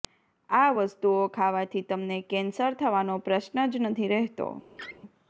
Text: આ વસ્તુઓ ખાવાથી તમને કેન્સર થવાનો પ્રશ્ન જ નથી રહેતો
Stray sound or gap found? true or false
true